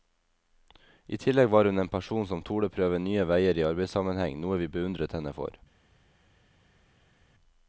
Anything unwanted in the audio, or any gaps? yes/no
no